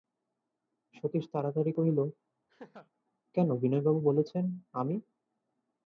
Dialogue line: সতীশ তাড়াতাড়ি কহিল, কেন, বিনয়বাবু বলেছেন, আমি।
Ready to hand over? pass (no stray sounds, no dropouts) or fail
fail